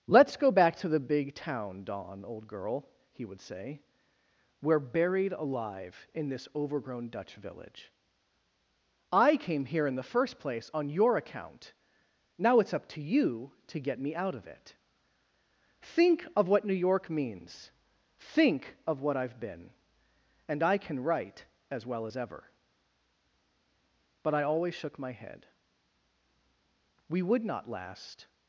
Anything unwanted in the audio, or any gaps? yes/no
no